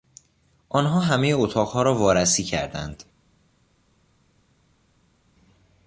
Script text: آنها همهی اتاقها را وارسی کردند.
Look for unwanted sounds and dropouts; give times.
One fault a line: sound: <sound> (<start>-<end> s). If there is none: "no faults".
no faults